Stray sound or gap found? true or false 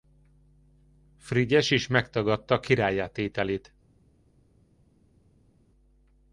false